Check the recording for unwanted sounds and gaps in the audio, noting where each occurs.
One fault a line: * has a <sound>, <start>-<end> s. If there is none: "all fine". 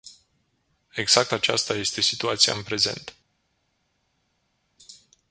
all fine